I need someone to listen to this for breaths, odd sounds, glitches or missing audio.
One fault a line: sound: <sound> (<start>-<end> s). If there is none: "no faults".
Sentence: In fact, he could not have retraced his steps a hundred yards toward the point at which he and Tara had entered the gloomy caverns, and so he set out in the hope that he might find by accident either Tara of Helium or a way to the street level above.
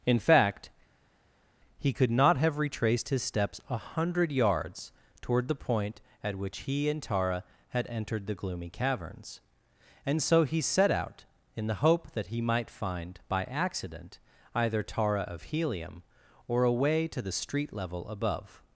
no faults